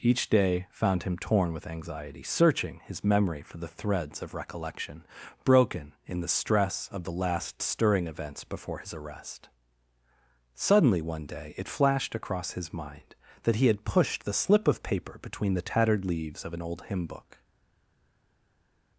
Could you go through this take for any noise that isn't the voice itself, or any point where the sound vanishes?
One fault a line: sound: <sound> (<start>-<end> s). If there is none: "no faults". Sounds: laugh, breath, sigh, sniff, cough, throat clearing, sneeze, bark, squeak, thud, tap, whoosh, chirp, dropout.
no faults